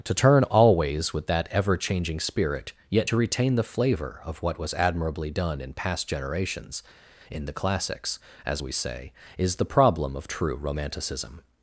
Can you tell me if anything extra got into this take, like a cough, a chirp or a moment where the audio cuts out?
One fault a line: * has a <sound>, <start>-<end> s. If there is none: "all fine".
all fine